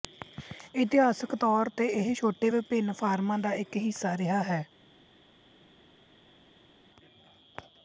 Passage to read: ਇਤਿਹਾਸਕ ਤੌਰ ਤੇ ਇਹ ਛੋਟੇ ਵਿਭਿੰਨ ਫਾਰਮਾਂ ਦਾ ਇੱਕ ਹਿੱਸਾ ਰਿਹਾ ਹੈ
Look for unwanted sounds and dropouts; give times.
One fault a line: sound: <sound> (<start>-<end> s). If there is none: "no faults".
no faults